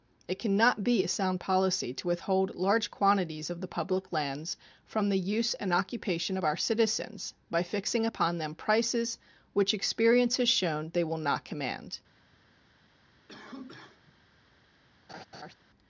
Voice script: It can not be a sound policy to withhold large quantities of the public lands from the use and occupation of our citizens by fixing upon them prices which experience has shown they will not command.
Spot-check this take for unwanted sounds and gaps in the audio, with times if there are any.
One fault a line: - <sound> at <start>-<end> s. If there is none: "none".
- cough at 13.3-14.2 s
- laugh at 15.1-15.5 s